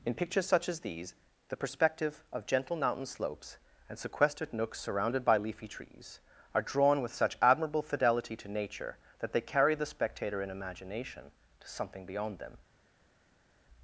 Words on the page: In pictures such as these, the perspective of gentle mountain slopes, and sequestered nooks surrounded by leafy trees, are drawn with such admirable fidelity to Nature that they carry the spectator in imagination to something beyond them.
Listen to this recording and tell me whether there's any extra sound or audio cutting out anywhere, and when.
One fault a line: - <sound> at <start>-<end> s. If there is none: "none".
none